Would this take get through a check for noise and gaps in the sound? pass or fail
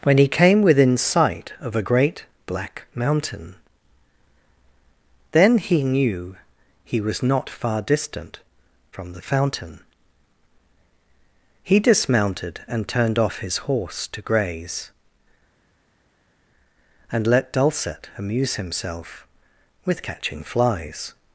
pass